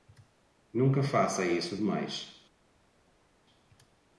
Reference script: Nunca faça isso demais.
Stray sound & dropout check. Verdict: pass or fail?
pass